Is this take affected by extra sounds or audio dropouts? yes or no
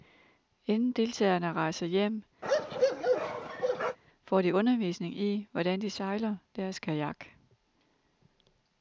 yes